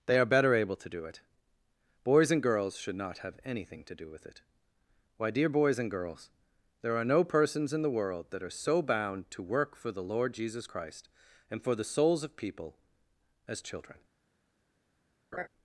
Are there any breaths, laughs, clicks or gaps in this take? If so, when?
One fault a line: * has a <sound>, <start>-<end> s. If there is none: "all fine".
* has a laugh, 15.3-15.5 s